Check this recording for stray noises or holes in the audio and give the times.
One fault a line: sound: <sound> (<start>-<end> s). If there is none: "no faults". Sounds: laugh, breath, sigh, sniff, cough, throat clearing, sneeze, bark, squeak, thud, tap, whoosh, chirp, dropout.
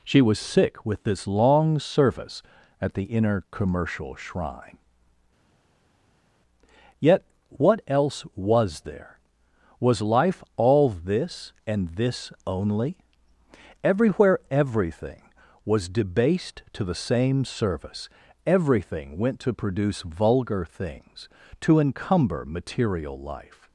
no faults